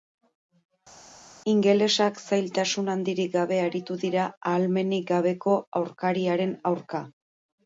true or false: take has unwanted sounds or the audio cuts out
false